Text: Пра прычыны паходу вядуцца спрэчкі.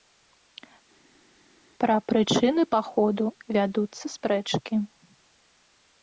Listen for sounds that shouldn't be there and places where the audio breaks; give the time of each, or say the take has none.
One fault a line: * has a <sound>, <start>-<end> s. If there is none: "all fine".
all fine